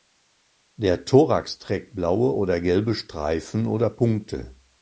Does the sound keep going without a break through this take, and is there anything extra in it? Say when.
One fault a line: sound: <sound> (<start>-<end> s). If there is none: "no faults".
no faults